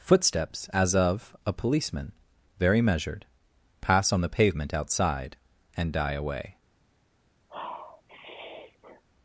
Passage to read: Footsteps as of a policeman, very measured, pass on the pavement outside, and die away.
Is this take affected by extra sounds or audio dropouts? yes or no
yes